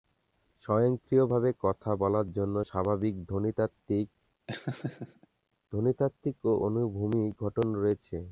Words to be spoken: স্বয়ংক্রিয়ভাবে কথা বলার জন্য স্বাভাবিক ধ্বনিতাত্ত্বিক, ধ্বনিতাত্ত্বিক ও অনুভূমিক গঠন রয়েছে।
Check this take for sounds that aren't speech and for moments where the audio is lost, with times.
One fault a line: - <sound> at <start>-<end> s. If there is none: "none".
- laugh at 4.5-5.3 s